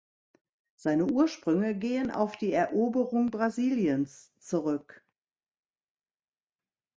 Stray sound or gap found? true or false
false